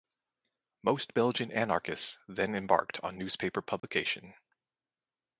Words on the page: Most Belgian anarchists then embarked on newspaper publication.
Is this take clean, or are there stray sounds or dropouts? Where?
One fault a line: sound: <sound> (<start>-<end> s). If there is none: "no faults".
sound: dropout (3.8-3.8 s)